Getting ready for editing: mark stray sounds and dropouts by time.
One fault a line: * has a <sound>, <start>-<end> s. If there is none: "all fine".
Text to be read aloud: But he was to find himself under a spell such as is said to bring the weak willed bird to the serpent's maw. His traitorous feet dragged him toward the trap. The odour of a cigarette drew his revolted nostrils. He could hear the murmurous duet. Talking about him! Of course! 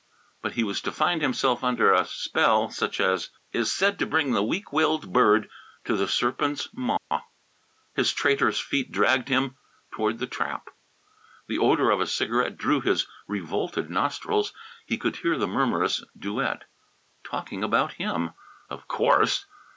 * has a dropout, 7.0-7.1 s